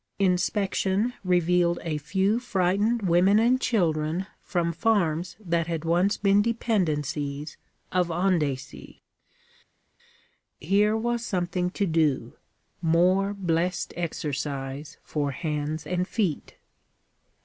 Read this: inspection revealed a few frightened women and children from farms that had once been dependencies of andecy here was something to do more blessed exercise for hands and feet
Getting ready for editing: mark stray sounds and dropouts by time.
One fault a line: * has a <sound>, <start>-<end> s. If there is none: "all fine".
all fine